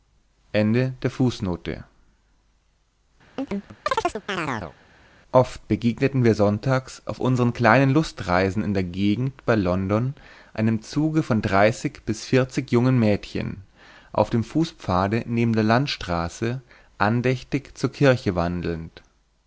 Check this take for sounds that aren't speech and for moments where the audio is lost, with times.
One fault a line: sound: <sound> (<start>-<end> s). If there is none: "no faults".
sound: chirp (3.4-4.8 s)